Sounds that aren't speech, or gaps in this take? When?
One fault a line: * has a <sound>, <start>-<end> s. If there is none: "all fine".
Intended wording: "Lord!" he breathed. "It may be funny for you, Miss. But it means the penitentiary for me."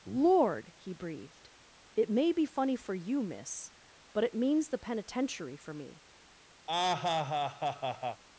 * has a laugh, 6.7-8.2 s